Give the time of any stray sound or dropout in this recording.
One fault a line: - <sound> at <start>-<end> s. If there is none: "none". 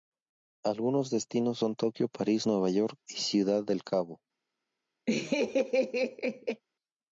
- laugh at 5.1-6.6 s